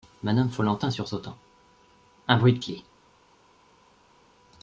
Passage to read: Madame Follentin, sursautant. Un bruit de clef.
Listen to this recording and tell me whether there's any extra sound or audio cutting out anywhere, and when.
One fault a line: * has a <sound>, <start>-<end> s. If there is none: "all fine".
all fine